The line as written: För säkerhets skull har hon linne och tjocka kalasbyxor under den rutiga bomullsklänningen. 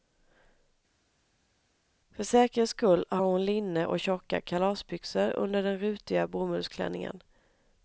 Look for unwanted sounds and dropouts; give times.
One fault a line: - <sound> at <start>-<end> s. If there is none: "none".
none